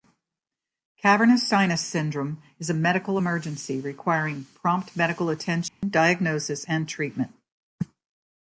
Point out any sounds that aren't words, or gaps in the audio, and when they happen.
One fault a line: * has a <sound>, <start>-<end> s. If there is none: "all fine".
* has a dropout, 5.7-5.8 s